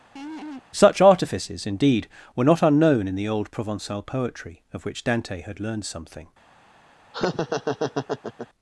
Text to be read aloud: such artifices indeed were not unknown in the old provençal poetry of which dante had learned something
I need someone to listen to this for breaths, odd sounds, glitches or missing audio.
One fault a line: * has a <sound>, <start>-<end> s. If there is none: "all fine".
* has a laugh, 0.2-0.6 s
* has a laugh, 7.1-8.5 s